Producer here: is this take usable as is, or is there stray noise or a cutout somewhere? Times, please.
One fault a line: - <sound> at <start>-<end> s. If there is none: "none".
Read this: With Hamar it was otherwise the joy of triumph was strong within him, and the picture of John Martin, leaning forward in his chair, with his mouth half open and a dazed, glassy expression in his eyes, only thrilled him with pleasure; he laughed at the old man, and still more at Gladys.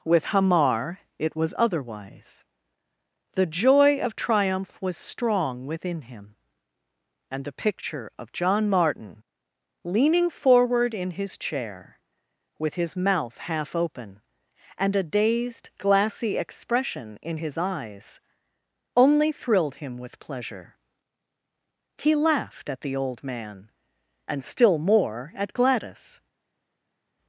none